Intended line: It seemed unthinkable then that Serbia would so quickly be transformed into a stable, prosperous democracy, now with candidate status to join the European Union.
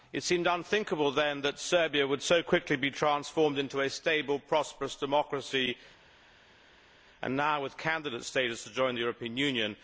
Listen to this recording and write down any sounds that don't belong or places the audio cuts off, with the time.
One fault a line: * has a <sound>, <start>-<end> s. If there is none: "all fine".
all fine